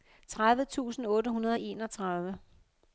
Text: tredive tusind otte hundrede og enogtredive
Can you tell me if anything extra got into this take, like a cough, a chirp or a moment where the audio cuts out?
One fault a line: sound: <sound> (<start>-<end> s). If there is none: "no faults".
no faults